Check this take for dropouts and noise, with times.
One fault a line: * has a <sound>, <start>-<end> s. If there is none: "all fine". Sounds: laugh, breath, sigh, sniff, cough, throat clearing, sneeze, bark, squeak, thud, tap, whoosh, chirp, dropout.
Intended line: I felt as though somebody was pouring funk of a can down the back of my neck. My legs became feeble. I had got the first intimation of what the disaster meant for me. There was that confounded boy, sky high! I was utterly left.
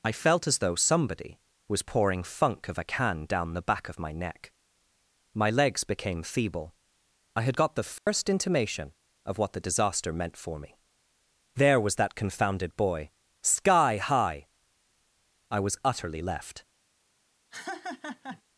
* has a dropout, 8.0-8.1 s
* has a laugh, 17.5-18.4 s